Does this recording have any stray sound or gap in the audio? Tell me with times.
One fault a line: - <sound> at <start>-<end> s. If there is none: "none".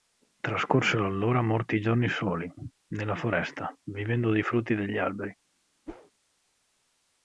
- whoosh at 5.9-6.1 s